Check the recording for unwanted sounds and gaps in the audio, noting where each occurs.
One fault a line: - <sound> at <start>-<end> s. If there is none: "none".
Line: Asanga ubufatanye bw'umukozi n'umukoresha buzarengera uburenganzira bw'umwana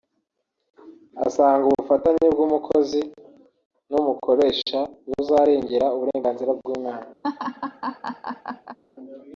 - laugh at 7.2-8.8 s